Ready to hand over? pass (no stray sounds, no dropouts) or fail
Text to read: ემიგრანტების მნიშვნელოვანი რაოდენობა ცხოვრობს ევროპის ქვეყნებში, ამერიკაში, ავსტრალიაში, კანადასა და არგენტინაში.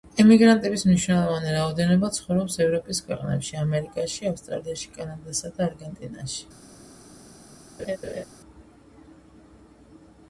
fail